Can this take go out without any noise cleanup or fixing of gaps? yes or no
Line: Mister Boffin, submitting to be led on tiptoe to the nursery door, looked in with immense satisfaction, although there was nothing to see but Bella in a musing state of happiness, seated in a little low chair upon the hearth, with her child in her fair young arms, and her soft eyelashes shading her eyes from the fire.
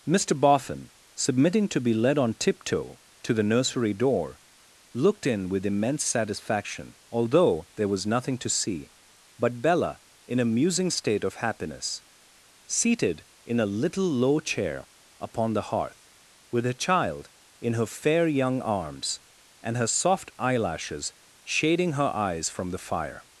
yes